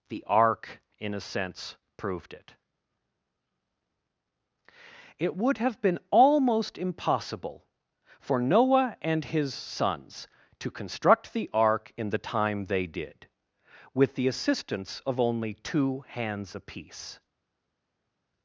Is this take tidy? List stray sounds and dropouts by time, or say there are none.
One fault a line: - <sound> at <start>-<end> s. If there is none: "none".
none